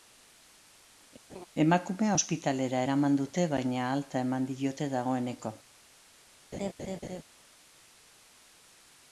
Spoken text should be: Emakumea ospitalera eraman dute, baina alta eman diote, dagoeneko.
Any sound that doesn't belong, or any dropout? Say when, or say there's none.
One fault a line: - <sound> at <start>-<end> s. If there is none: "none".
- laugh at 1.3-1.5 s
- laugh at 6.5-7.2 s